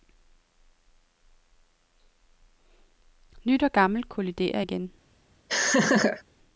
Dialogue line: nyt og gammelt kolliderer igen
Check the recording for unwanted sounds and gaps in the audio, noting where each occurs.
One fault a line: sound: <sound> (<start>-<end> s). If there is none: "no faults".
sound: laugh (5.5-6.2 s)